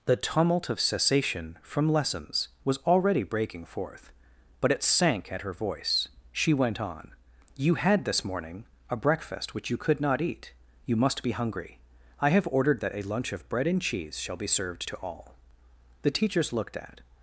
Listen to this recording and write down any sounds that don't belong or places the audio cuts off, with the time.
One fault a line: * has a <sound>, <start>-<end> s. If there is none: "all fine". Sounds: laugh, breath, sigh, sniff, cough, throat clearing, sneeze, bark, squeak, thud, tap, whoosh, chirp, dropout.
all fine